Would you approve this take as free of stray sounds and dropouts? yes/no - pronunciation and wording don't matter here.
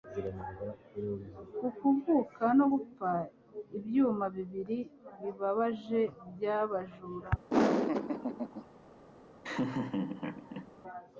no